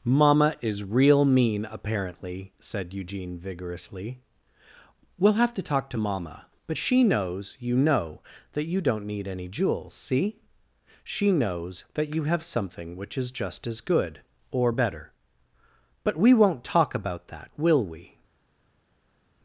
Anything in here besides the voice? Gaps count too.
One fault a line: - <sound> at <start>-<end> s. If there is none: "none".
none